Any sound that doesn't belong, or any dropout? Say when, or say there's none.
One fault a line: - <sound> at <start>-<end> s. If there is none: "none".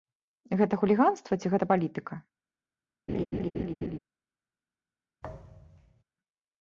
- laugh at 3.1-4.0 s
- thud at 5.2-6.0 s